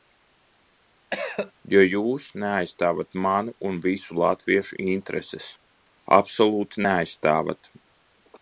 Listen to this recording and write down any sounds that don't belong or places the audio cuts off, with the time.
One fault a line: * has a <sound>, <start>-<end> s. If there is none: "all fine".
* has a cough, 1.1-1.5 s